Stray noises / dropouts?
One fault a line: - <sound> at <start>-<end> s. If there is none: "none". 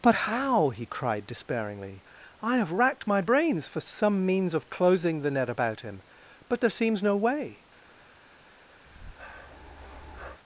- breath at 8.9-10.4 s